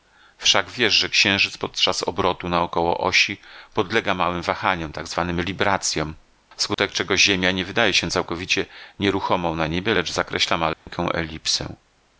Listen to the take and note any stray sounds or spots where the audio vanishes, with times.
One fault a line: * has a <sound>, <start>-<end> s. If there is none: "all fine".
* has a dropout, 6.7-6.8 s
* has a dropout, 10.7-10.9 s